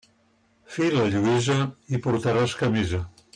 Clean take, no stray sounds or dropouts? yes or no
yes